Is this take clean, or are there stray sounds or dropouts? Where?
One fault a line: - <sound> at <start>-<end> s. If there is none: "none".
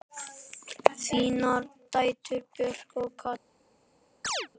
- chirp at 4.2-4.5 s